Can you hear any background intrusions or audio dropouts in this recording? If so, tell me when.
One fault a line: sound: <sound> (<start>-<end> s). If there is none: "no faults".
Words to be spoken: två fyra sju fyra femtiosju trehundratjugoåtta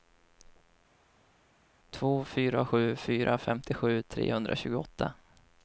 no faults